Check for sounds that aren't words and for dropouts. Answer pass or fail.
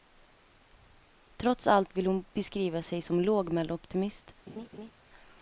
fail